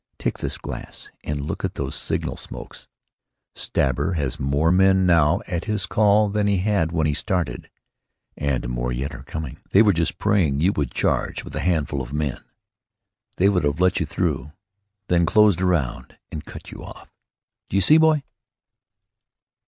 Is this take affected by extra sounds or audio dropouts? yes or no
no